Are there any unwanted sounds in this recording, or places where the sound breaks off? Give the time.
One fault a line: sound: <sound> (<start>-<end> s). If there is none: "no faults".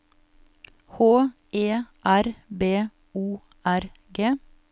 no faults